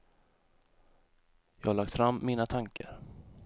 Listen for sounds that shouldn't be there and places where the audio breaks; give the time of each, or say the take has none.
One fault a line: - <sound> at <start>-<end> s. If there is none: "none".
- dropout at 2.8-2.8 s